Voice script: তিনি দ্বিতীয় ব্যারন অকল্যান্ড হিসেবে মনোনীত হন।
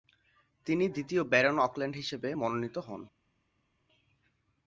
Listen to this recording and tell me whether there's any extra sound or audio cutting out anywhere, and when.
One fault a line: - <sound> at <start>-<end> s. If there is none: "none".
none